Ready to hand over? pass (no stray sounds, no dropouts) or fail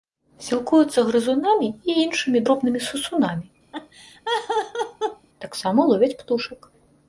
fail